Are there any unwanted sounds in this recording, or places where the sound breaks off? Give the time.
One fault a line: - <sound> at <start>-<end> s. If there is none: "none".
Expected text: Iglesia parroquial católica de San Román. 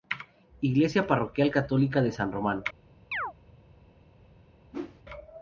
- chirp at 3.1-3.3 s
- whoosh at 4.7-5.0 s